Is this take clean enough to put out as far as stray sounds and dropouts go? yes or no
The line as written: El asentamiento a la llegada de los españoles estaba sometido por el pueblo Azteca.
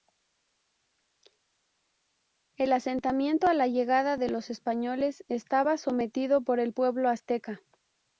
yes